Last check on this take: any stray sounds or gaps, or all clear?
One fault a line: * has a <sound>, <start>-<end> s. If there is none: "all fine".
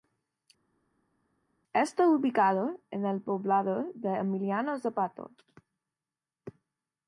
all fine